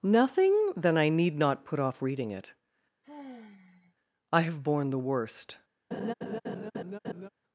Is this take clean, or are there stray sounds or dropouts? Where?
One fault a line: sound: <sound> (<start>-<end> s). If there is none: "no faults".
sound: sigh (3.0-4.0 s)
sound: laugh (5.9-7.3 s)